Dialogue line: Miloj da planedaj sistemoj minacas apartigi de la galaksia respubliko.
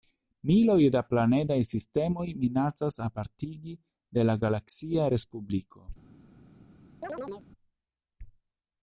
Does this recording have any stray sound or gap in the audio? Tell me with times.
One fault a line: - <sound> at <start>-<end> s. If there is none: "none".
- chirp at 7.0-7.5 s